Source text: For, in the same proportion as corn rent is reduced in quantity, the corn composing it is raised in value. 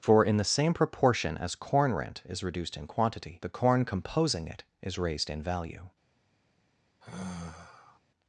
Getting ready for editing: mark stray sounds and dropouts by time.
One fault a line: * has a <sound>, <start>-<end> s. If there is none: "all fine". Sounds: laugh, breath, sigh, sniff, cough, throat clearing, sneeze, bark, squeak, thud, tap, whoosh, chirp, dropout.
* has a sigh, 7.0-8.0 s